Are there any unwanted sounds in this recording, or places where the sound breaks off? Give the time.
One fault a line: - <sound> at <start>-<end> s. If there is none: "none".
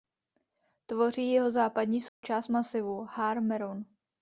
- dropout at 2.1-2.2 s